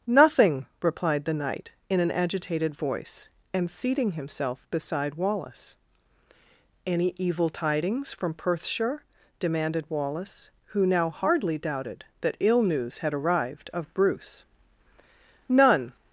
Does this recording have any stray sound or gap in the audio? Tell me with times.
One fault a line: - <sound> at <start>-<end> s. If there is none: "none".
none